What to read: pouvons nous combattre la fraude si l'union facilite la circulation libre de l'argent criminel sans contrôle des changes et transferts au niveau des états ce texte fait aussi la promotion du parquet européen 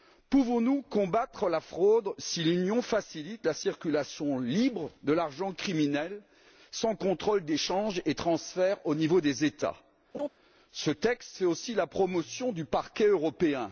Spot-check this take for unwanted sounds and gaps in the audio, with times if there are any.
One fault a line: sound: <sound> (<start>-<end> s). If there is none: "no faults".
sound: laugh (10.1-10.3 s)